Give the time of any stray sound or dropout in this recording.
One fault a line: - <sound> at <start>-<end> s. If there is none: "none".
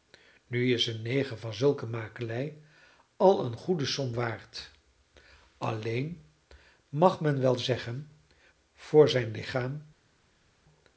none